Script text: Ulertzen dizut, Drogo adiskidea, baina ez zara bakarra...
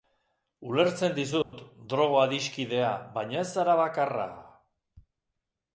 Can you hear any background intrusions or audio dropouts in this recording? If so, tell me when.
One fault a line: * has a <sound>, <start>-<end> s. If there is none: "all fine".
* has a dropout, 1.4-1.5 s